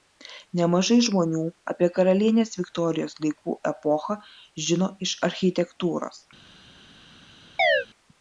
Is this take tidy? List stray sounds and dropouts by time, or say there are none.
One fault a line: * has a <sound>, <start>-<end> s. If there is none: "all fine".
* has a chirp, 7.6-7.9 s